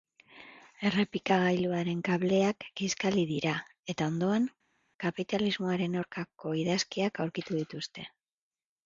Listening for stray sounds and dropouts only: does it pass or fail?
pass